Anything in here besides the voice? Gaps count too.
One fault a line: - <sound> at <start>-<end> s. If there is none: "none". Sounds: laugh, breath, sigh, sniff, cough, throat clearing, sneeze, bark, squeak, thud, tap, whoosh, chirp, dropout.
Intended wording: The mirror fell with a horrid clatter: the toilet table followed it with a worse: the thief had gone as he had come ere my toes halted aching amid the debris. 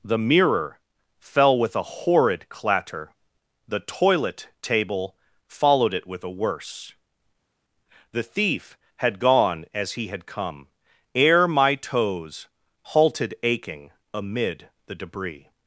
none